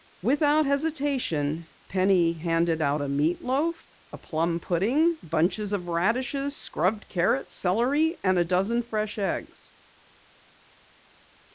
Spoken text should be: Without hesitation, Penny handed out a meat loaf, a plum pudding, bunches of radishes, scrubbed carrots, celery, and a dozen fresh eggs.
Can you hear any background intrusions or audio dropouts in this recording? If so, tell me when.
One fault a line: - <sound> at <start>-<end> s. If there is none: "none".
none